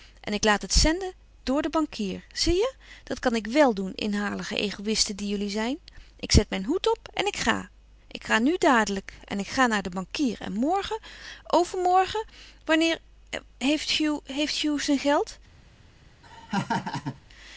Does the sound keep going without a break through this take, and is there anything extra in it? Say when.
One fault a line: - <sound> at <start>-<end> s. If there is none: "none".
- laugh at 16.2-17.2 s